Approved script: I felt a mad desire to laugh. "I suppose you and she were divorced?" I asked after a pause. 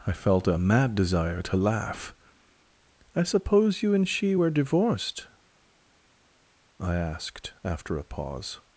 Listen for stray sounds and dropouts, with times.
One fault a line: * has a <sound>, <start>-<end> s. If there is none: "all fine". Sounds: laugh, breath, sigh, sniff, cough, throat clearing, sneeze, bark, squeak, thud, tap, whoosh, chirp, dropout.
all fine